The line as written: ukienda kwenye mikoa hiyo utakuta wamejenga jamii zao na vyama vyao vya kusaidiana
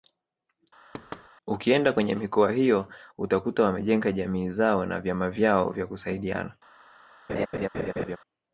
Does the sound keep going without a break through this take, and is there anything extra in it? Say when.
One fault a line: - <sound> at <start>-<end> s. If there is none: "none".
- thud at 0.9-1.3 s
- laugh at 7.3-8.2 s